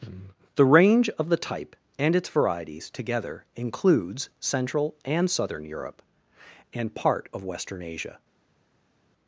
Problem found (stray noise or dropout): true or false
false